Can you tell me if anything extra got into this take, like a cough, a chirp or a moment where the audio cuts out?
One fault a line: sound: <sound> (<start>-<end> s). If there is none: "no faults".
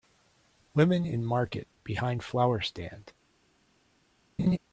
sound: laugh (4.4-4.6 s)